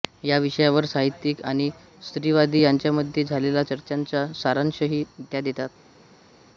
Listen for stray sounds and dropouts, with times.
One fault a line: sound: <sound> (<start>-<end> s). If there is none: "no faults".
no faults